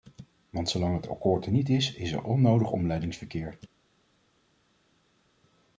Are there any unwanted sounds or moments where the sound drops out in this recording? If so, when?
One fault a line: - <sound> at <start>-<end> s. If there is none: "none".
none